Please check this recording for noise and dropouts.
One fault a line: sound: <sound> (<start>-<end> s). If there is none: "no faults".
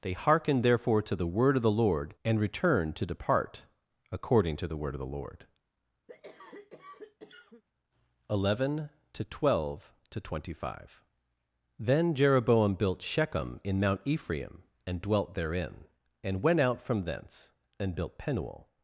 sound: cough (6.1-7.6 s)